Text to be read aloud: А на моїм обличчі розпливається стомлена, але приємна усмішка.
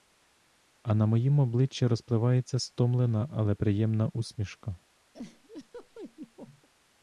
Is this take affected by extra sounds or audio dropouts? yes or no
yes